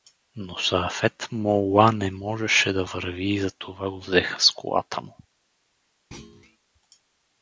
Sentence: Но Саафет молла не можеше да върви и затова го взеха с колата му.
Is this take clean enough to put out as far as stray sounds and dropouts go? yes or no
no